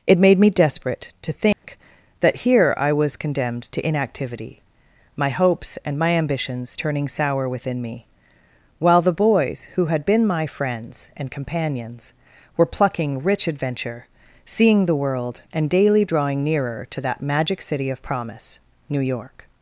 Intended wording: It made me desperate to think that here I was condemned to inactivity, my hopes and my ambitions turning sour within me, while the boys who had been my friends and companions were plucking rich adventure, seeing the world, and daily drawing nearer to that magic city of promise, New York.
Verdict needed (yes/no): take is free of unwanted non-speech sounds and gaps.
no